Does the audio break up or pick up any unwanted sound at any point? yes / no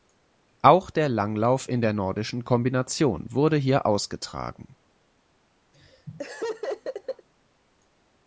yes